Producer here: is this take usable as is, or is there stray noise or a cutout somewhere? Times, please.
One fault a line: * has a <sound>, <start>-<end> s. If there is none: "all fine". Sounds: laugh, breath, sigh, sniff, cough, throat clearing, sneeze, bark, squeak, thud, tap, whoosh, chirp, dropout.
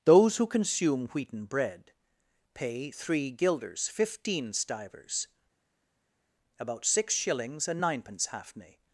all fine